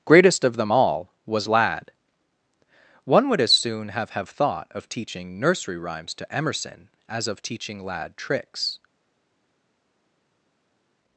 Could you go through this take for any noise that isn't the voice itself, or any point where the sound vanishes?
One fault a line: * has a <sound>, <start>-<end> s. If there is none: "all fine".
all fine